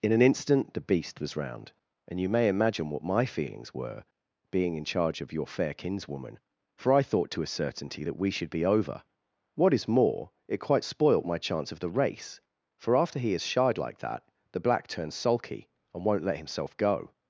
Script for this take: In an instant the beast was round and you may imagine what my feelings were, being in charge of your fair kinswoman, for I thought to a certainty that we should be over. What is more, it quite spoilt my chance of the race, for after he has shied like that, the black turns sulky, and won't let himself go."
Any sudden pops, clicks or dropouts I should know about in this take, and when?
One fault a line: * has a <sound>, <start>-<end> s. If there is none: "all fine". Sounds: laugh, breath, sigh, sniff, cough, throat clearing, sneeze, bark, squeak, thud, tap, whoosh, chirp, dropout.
all fine